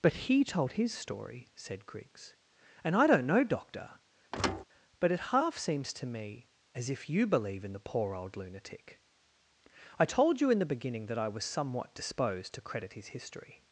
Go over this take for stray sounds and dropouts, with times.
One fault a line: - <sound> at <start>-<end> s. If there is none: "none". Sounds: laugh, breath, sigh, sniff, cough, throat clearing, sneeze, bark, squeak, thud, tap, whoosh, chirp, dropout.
- thud at 4.3-4.6 s